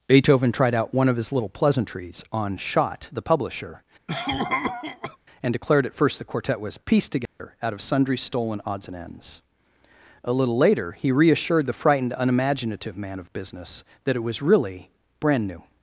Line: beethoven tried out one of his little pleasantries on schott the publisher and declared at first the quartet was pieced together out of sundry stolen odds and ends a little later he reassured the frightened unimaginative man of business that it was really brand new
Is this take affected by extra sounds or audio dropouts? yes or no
yes